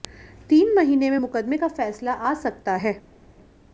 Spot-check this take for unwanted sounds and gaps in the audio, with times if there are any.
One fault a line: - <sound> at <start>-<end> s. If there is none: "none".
none